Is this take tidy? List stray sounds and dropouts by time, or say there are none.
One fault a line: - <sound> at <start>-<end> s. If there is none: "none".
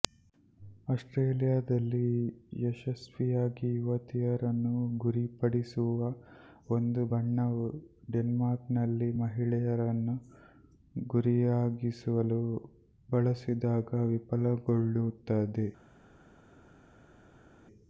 none